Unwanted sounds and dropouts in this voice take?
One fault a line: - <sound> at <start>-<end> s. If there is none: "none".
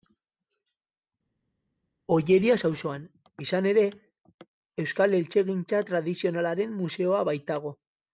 none